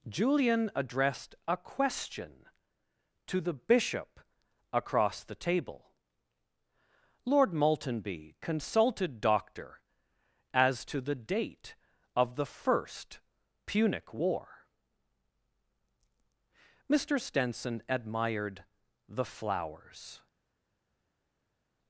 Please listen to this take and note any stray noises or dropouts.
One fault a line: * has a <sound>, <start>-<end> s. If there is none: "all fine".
all fine